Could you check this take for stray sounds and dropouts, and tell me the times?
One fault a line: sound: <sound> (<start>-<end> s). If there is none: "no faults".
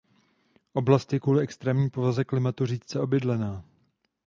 no faults